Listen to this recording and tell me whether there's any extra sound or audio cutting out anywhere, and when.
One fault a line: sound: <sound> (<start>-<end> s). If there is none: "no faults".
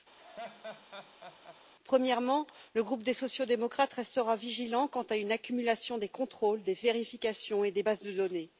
sound: laugh (0.2-1.6 s)